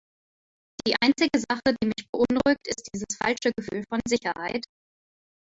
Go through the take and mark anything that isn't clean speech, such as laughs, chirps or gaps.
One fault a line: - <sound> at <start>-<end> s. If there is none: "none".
none